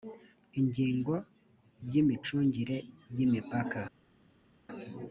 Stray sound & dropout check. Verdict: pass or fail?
pass